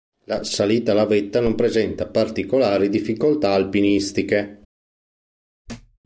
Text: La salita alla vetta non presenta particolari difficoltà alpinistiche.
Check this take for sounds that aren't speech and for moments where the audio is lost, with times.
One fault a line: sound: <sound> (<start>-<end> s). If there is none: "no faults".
sound: thud (5.7-6.0 s)